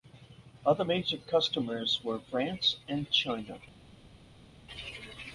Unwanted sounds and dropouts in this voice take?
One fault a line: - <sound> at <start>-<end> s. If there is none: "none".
none